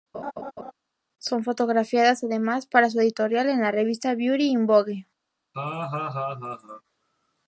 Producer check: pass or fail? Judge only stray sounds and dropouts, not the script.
fail